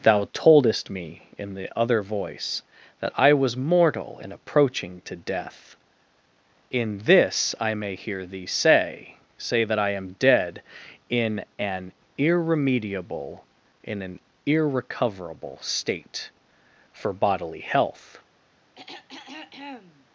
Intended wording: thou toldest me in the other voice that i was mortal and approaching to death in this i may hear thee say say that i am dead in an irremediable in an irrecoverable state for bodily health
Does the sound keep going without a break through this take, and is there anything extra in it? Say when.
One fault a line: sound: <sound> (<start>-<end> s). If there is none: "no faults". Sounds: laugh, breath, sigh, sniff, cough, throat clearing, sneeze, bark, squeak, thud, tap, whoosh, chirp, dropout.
sound: throat clearing (18.8-20.1 s)